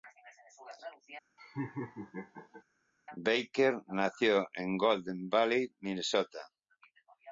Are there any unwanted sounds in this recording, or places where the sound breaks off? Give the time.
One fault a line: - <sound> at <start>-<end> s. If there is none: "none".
- laugh at 1.4-2.6 s